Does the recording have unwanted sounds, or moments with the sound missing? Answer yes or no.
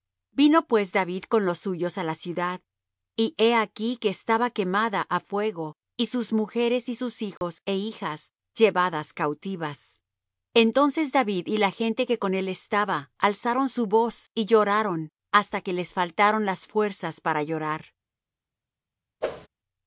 yes